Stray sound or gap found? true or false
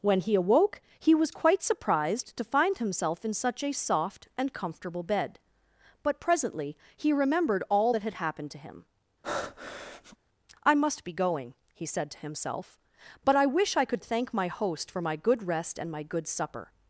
true